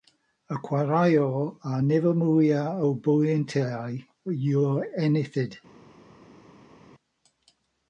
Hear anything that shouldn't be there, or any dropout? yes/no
no